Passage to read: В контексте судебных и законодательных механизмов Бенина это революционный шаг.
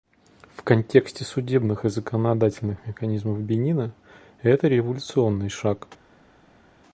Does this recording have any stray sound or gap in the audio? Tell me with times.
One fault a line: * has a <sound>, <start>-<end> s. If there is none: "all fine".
all fine